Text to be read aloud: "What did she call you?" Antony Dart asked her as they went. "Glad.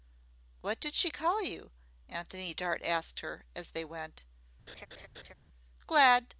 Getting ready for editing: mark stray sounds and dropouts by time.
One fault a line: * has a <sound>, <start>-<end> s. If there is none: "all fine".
* has a laugh, 4.7-5.3 s